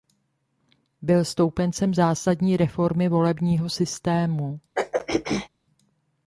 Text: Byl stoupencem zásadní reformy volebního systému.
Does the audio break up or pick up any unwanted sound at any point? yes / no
yes